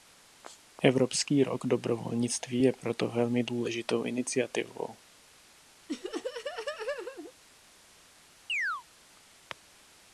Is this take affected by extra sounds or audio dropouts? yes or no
yes